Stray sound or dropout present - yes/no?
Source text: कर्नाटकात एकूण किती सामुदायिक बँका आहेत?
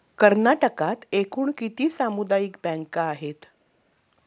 no